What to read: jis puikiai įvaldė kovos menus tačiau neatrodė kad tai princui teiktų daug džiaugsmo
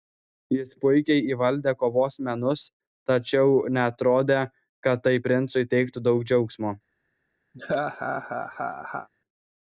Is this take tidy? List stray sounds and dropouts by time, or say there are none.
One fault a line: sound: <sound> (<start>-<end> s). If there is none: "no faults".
sound: laugh (7.5-9.1 s)